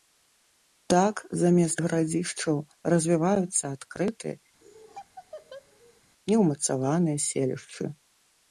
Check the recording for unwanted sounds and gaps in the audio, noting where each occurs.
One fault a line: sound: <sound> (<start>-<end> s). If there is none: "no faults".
sound: laugh (4.6-6.0 s)